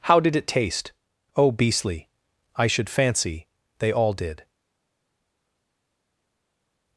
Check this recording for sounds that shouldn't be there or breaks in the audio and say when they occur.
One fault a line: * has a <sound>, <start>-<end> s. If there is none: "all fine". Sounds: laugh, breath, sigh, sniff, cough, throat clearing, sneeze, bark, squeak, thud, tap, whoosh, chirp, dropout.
all fine